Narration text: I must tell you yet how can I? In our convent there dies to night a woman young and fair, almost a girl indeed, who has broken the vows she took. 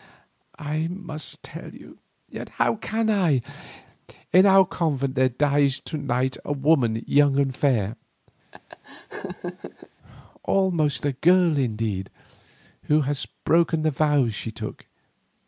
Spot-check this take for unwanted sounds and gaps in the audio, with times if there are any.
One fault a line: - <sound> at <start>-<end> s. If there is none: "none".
- laugh at 8.5-9.9 s